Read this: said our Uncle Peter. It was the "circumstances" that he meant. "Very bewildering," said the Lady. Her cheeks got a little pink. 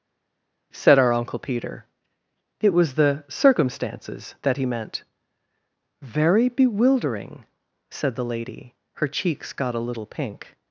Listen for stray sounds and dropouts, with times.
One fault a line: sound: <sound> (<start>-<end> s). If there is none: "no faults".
no faults